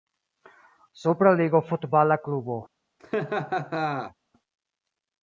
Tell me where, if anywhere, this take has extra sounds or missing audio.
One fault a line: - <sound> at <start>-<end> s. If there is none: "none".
- laugh at 3.0-4.1 s